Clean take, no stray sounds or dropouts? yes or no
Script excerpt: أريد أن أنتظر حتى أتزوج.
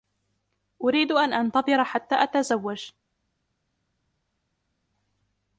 yes